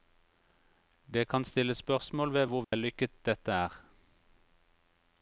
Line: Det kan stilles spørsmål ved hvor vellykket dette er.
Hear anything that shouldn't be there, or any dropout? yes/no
yes